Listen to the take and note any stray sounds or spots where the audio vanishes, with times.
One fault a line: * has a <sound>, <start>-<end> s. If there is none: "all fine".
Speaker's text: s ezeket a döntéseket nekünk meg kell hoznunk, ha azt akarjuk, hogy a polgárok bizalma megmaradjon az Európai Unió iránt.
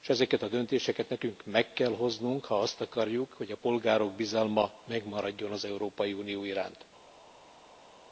all fine